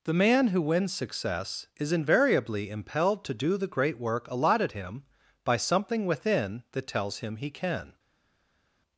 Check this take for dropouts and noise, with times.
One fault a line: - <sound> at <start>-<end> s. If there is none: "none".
none